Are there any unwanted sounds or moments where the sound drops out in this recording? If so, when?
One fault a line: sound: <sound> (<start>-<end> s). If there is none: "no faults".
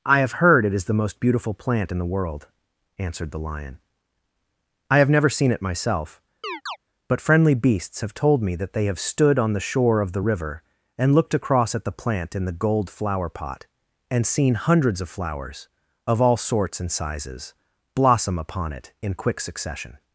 sound: chirp (6.4-6.8 s)